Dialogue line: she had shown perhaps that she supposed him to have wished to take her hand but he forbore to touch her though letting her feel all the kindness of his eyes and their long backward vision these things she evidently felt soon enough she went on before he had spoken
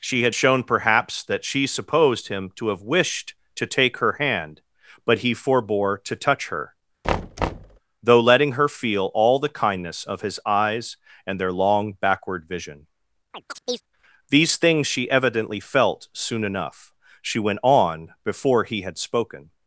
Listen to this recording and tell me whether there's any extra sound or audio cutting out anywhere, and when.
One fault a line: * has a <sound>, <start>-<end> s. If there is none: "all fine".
* has a thud, 7.0-7.8 s
* has a chirp, 13.3-13.8 s